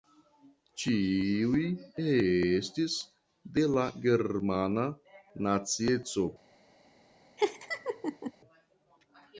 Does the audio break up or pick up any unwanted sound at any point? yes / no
yes